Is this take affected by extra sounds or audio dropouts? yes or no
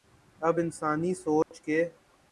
yes